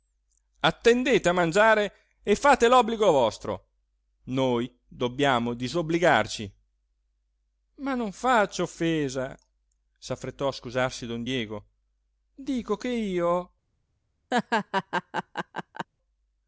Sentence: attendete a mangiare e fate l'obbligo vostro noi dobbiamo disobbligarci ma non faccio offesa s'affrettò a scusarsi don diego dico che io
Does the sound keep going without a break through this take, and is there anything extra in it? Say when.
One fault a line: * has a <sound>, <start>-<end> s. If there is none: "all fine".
* has a laugh, 14.3-15.9 s